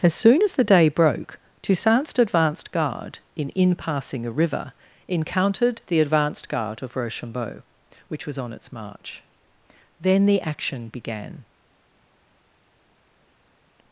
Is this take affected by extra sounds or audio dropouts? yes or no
no